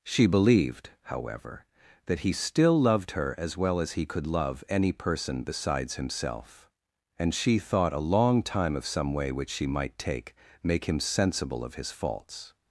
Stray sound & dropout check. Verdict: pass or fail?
pass